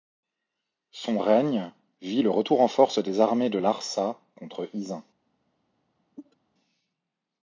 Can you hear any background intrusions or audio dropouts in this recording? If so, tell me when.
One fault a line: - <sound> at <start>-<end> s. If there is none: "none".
- cough at 6.2-6.4 s